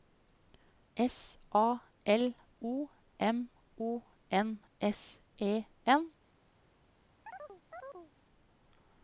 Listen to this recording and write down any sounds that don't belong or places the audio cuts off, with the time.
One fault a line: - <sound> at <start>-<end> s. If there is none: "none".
- chirp at 7.3-8.1 s